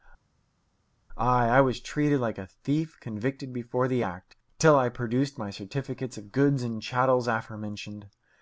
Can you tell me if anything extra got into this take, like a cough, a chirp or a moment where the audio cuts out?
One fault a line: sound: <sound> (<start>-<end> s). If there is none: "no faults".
no faults